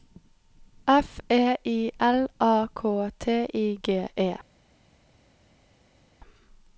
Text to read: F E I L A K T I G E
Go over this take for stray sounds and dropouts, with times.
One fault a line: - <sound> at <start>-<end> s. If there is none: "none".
none